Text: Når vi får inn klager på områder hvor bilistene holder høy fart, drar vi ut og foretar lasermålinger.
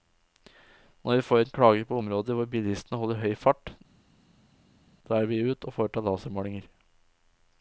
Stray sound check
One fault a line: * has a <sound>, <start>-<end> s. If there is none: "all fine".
all fine